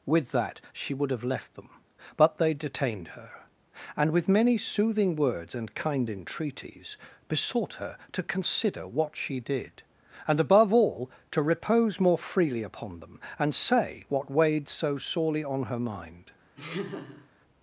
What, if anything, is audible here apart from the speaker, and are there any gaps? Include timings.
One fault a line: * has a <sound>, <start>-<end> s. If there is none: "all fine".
* has a laugh, 16.6-17.3 s